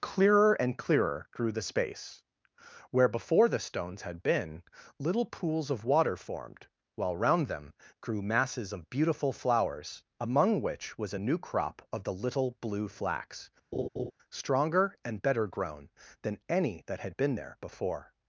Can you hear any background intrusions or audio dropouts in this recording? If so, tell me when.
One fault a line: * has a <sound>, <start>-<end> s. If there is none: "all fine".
* has a laugh, 13.7-14.1 s